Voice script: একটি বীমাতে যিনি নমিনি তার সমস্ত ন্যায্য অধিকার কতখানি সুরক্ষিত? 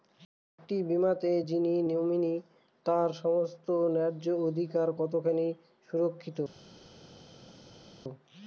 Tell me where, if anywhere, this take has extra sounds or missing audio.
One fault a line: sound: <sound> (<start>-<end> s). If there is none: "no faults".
no faults